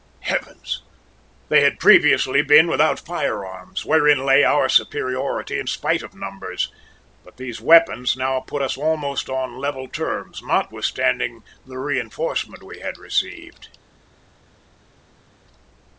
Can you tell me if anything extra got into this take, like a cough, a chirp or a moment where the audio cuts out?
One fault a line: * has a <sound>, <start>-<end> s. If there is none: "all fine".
all fine